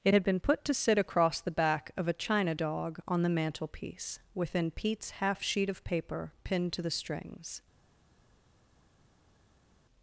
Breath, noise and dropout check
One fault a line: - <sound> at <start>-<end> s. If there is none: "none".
none